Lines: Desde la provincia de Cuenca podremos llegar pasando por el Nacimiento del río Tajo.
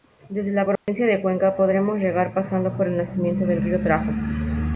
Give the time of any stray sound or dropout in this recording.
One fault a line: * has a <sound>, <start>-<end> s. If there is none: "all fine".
* has a dropout, 0.8-0.9 s